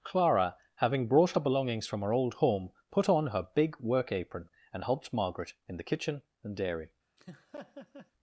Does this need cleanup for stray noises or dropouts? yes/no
yes